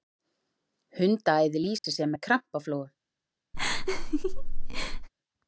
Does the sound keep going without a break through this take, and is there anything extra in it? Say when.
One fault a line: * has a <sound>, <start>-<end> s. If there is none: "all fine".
* has a dropout, 1.8-1.8 s
* has a laugh, 3.5-5.1 s